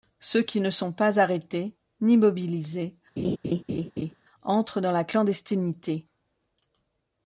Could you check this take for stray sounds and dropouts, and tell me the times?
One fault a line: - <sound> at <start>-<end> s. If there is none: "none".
- laugh at 3.2-4.2 s